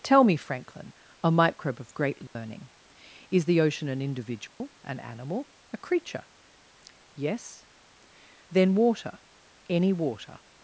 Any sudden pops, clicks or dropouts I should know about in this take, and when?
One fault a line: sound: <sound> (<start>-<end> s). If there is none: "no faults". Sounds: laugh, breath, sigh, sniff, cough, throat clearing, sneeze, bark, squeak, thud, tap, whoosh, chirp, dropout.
sound: dropout (2.3-2.4 s)
sound: dropout (4.5-4.6 s)